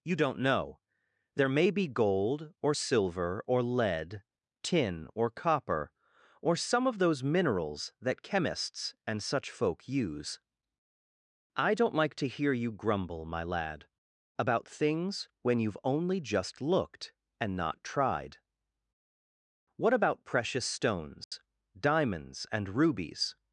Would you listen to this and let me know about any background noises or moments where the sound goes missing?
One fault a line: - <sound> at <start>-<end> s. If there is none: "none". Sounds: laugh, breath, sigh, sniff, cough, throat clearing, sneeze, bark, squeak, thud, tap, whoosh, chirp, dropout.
- dropout at 21.2-21.3 s